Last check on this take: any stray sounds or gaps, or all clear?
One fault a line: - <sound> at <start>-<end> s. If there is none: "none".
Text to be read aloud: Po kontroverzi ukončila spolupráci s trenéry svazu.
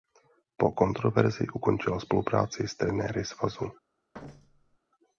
- thud at 4.1-4.8 s